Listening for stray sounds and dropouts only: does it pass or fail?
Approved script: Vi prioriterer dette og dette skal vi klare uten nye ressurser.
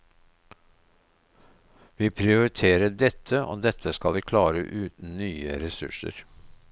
pass